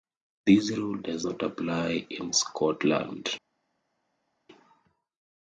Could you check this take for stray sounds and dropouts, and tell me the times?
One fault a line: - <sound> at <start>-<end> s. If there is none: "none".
none